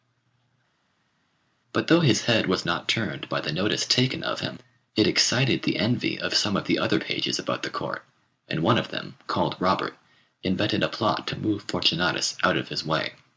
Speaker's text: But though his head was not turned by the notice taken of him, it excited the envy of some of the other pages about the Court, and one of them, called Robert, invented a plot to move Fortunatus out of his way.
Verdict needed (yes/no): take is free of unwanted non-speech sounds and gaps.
yes